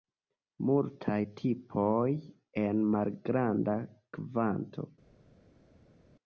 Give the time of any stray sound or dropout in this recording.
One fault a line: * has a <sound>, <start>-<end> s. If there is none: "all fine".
all fine